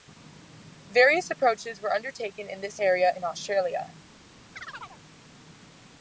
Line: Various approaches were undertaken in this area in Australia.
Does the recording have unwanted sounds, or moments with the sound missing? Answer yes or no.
yes